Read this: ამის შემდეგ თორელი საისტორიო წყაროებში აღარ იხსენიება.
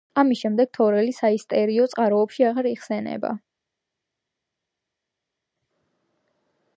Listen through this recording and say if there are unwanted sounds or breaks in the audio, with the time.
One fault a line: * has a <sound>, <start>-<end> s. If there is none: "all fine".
all fine